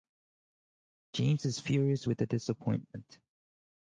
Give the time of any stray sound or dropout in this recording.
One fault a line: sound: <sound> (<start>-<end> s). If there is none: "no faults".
no faults